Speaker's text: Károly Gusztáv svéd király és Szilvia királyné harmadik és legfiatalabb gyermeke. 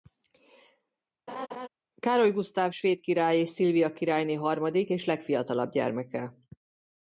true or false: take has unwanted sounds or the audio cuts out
true